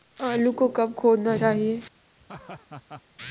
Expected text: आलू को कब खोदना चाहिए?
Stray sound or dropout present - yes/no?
yes